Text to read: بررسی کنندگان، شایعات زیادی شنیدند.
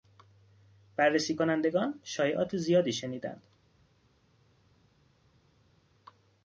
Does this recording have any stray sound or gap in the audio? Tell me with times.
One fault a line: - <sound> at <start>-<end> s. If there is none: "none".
none